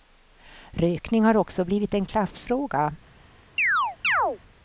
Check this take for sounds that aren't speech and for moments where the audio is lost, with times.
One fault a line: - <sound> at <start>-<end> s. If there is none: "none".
- chirp at 3.6-4.4 s